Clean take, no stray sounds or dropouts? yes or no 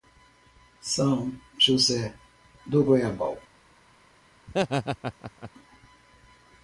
no